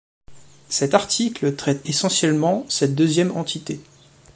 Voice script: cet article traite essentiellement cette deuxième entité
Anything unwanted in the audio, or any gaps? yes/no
no